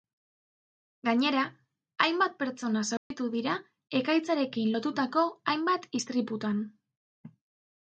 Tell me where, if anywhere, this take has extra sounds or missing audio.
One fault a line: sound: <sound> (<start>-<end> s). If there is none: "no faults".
sound: dropout (3.0-3.1 s)